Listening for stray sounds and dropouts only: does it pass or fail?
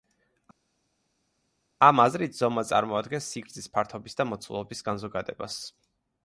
pass